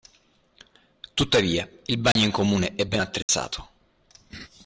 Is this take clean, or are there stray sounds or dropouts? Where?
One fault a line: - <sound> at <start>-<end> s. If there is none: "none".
- dropout at 2.1-2.2 s
- dropout at 3.2-3.3 s